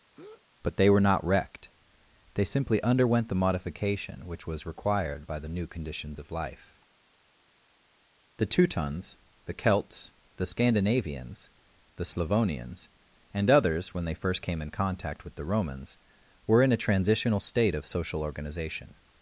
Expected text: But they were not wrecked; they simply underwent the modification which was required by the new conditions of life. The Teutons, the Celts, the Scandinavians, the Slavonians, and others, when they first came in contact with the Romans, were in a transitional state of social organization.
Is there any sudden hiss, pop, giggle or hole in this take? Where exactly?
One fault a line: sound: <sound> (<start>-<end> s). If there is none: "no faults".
sound: breath (0.1-0.5 s)